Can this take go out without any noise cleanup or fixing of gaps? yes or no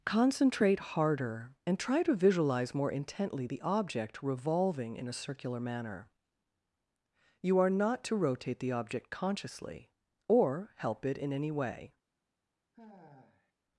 no